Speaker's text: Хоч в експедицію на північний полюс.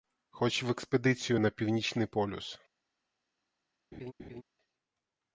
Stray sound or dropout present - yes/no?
yes